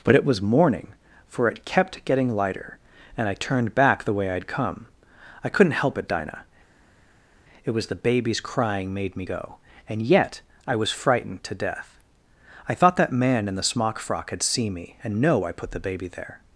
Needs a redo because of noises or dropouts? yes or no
no